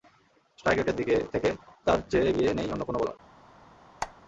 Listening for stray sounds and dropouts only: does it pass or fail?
fail